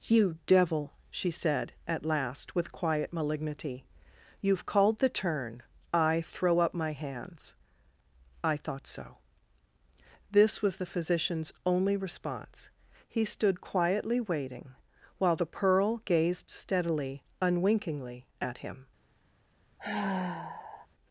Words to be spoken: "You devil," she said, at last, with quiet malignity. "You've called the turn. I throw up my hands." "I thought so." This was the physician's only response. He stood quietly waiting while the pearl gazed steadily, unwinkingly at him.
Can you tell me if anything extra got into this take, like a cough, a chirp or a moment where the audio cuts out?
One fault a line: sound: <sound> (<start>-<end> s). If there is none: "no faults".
sound: sigh (19.8-20.9 s)